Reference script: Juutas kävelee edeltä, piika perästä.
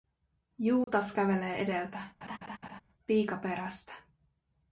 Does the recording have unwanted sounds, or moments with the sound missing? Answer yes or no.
yes